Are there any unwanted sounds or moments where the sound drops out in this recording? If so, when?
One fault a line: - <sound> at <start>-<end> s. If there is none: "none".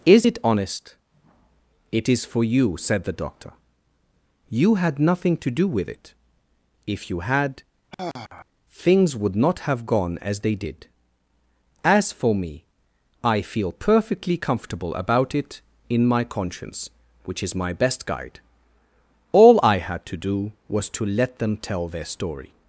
- sigh at 7.9-8.5 s